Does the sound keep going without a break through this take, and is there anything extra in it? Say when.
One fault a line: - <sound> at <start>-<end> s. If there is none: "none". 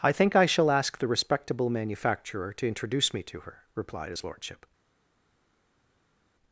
none